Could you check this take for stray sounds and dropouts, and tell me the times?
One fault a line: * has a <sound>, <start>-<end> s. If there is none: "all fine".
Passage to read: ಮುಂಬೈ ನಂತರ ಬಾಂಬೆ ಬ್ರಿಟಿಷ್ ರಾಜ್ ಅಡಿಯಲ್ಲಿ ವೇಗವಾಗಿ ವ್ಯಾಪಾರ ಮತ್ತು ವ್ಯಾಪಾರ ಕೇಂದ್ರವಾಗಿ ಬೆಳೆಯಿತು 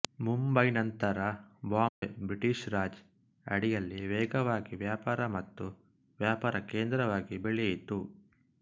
* has a dropout, 1.9-2.0 s